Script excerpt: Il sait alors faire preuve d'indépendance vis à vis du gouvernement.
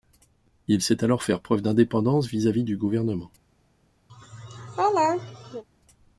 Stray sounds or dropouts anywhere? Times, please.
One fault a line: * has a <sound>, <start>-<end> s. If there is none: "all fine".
* has a laugh, 4.1-5.6 s